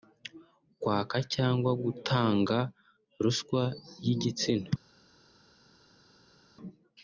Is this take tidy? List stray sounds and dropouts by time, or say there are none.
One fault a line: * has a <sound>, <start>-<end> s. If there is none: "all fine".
all fine